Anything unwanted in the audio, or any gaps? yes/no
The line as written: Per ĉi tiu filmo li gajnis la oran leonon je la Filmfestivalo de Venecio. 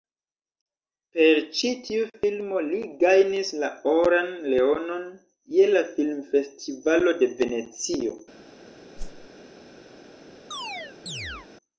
yes